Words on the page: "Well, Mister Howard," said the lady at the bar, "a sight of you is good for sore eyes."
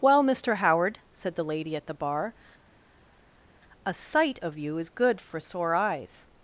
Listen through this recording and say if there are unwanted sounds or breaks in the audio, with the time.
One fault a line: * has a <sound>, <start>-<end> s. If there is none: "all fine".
all fine